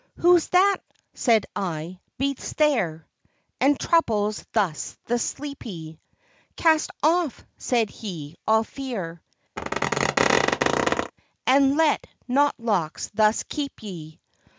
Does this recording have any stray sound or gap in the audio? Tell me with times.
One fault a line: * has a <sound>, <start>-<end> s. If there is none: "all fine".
* has a squeak, 9.6-11.1 s